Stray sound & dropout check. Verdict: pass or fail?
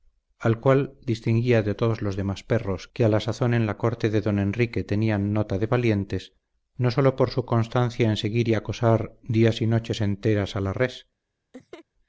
fail